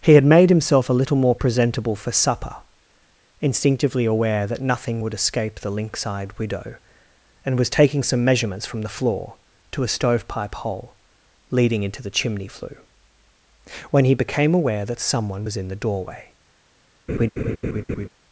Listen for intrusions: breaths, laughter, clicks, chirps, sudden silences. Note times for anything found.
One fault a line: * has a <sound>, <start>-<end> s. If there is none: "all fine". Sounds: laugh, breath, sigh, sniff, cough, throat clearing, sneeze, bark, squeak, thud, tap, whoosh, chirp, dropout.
* has a laugh, 17.1-18.1 s